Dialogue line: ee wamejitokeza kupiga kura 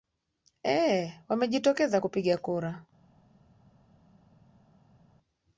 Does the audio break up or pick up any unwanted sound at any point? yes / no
no